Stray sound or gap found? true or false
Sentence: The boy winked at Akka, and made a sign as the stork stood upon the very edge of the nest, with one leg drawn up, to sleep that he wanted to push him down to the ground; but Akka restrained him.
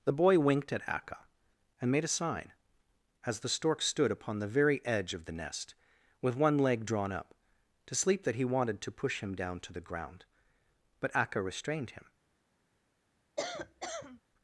true